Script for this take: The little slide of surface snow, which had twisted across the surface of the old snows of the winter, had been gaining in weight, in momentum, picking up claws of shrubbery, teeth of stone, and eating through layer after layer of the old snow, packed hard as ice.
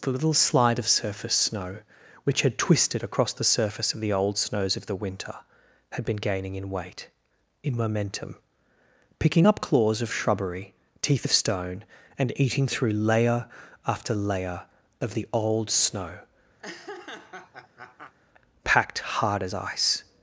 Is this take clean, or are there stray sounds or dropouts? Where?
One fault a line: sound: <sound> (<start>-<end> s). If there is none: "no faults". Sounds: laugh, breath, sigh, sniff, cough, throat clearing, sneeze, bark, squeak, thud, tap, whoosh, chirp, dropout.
sound: laugh (16.6-18.1 s)